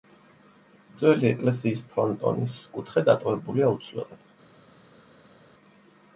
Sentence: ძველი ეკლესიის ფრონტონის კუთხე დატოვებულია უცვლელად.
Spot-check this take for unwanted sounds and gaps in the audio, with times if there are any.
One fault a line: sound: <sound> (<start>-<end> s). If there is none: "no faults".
no faults